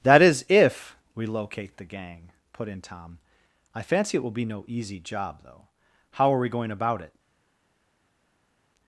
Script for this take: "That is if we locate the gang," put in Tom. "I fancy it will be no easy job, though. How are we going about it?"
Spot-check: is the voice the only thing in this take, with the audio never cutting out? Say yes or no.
yes